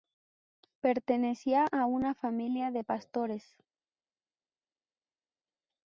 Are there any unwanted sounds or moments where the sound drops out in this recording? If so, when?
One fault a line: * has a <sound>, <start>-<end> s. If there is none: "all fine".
all fine